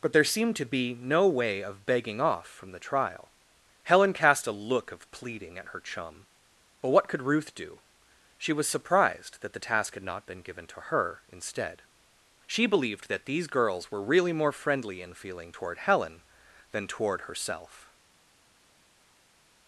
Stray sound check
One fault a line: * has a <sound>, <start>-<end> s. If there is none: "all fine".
all fine